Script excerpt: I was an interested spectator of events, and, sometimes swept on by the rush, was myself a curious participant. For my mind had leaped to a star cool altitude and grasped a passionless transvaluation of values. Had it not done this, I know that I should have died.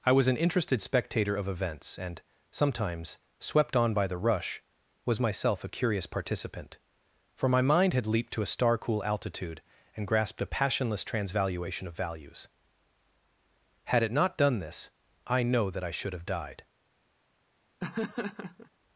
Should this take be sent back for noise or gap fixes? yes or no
yes